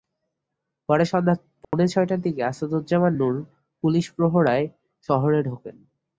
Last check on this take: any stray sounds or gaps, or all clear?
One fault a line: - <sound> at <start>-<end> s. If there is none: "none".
- dropout at 1.6-1.7 s